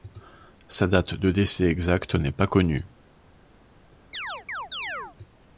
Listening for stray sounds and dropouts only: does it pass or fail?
fail